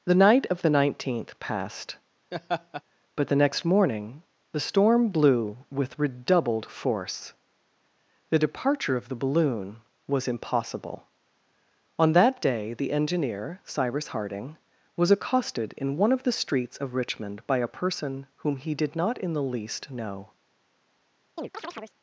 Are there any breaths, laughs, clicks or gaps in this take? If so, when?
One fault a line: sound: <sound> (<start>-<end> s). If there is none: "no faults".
sound: laugh (2.3-2.8 s)
sound: chirp (21.4-22.0 s)